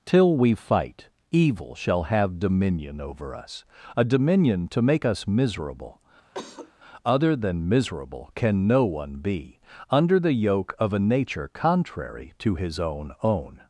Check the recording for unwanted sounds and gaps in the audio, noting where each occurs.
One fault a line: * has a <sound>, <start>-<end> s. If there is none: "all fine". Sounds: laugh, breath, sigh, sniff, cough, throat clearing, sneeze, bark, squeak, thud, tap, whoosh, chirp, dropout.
* has a cough, 6.3-6.7 s